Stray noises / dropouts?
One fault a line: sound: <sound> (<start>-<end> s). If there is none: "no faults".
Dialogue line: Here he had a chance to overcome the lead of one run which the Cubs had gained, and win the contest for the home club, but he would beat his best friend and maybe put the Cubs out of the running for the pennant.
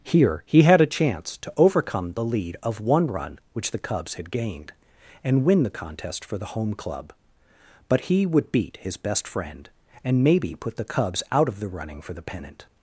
no faults